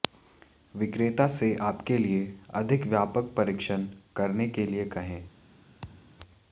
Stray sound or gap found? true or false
true